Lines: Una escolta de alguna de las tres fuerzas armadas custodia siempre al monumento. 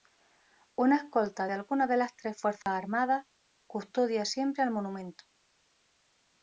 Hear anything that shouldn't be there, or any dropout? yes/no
yes